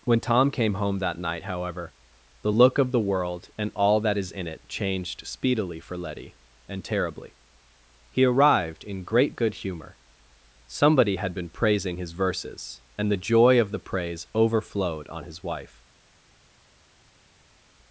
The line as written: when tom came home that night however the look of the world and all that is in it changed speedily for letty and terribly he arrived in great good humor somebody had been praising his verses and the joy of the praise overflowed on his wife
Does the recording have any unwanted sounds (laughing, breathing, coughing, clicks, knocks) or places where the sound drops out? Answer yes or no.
no